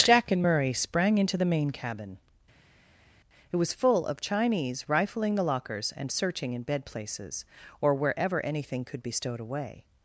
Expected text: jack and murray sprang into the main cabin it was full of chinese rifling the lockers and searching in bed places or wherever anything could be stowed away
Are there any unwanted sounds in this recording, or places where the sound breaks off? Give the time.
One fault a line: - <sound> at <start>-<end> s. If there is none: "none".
none